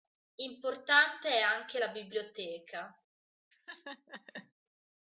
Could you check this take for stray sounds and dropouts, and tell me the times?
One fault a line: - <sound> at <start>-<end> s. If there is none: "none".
- laugh at 3.5-4.5 s